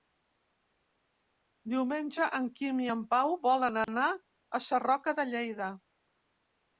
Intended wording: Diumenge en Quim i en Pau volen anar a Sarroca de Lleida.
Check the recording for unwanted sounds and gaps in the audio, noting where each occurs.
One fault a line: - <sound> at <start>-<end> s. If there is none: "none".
- dropout at 3.8-3.9 s